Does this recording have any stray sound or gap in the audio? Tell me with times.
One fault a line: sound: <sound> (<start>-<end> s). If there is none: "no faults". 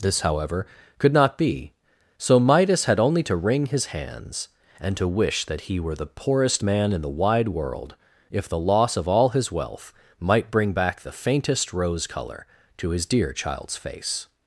no faults